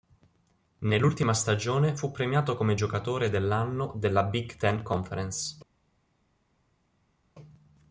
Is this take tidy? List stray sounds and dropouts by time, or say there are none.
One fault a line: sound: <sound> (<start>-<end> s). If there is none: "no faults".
no faults